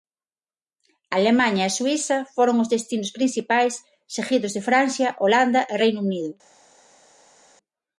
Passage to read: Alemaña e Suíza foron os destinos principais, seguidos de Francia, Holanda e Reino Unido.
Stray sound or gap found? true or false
false